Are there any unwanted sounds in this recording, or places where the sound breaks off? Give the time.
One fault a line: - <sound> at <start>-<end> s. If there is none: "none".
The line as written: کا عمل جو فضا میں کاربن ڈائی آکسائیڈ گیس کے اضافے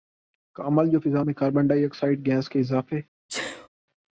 - sneeze at 3.3-3.7 s